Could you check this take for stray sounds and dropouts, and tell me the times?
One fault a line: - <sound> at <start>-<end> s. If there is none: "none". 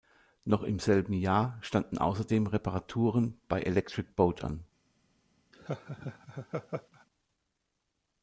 - laugh at 5.5-7.1 s